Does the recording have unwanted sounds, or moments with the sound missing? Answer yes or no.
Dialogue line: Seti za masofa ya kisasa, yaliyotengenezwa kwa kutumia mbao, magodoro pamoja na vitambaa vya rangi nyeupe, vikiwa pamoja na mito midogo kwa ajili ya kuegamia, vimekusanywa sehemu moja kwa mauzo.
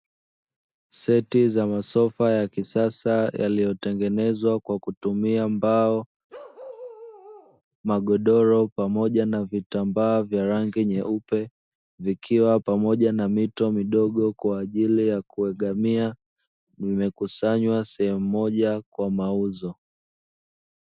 yes